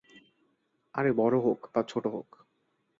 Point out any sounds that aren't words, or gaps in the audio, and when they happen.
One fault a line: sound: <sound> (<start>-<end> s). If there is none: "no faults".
no faults